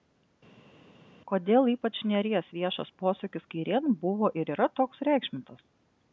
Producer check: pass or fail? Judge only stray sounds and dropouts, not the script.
pass